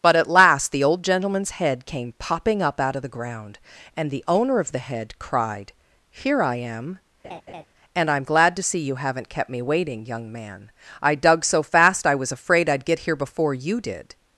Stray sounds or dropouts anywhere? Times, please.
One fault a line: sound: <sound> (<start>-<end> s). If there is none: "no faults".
sound: laugh (7.2-7.6 s)